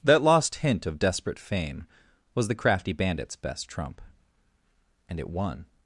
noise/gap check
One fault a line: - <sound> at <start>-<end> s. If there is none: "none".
none